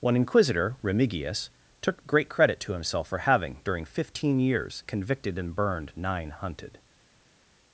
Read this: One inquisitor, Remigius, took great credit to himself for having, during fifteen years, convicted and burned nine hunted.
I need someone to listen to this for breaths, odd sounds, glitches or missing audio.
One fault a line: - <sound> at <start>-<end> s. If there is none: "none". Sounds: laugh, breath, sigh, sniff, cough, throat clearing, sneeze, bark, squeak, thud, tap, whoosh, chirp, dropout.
none